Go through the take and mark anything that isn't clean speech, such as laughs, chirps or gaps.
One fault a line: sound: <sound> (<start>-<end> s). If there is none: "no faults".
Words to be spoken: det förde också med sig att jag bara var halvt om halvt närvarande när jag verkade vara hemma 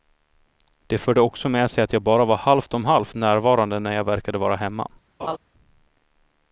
sound: laugh (5.2-5.4 s)